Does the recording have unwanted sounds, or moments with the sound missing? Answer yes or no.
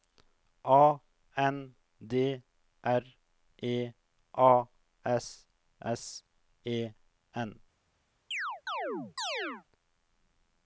yes